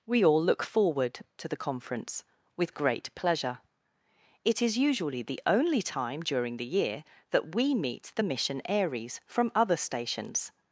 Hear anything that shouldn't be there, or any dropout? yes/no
no